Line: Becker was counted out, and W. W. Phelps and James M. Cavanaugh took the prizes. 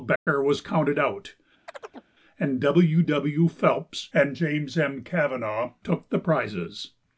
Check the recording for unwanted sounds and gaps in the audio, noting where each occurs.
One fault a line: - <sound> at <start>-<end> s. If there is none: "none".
- dropout at 0.2-0.3 s
- chirp at 1.7-2.1 s